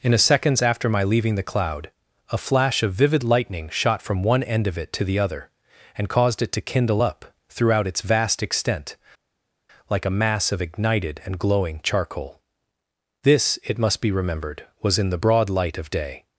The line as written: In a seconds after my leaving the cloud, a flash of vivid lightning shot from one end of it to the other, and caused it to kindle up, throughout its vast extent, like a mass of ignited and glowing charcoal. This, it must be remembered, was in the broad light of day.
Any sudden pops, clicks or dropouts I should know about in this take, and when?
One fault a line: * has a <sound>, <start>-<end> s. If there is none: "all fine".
all fine